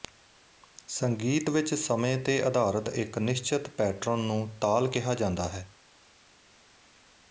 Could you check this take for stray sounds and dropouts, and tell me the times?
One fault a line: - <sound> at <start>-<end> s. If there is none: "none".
none